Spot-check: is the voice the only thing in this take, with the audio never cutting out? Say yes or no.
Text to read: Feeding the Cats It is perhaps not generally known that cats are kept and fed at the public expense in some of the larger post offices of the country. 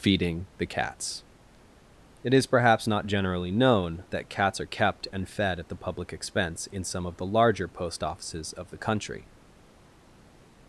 yes